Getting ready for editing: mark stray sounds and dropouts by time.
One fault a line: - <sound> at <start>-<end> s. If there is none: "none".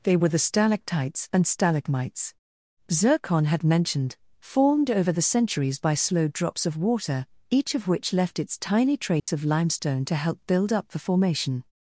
- dropout at 9.2-9.3 s